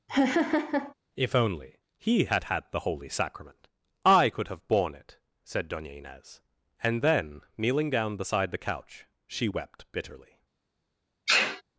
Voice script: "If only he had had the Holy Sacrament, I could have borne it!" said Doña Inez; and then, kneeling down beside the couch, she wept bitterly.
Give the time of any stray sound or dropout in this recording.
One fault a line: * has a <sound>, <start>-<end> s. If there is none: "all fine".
* has a laugh, 0.1-0.9 s
* has a sneeze, 11.3-11.6 s